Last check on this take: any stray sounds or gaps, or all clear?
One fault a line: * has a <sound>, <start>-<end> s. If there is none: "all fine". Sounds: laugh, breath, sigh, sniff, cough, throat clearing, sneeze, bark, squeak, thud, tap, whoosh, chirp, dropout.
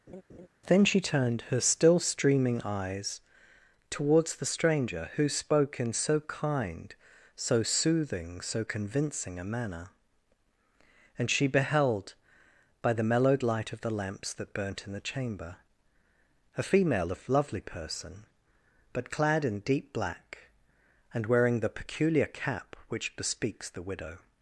* has a laugh, 0.1-0.5 s